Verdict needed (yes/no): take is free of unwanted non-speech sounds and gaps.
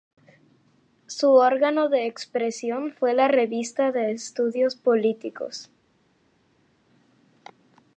yes